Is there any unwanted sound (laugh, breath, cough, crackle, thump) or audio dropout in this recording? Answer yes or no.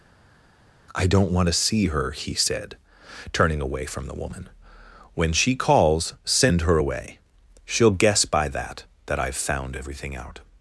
no